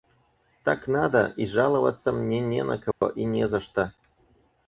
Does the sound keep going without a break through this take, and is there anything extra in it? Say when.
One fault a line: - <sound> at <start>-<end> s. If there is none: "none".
- dropout at 2.9-3.0 s